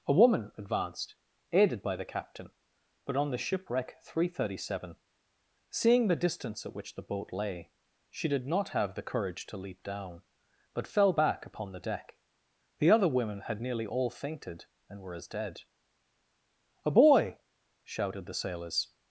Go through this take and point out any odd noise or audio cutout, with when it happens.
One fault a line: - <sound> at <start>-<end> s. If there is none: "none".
none